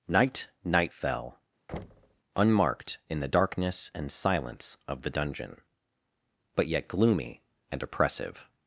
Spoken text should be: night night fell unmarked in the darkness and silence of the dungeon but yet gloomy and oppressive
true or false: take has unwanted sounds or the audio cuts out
true